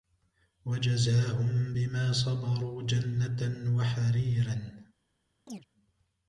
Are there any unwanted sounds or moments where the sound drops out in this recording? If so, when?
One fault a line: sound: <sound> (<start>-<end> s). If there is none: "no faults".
sound: chirp (5.5-5.7 s)